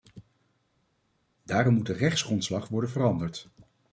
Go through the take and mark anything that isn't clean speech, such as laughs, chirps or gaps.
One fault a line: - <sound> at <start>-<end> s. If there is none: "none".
none